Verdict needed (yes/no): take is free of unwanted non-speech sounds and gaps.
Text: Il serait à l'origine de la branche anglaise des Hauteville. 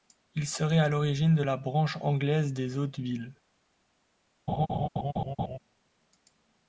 no